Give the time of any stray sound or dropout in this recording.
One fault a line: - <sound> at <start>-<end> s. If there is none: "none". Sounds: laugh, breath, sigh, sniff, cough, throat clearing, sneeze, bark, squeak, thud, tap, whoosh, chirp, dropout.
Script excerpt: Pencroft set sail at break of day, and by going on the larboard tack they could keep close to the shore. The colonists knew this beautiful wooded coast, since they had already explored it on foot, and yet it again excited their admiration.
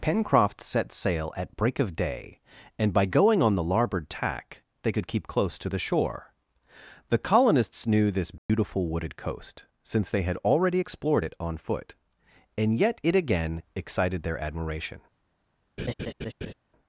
- dropout at 8.4-8.5 s
- laugh at 15.8-16.5 s